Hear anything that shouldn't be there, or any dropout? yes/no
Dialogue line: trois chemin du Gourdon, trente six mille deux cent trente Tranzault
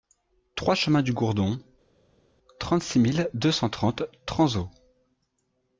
no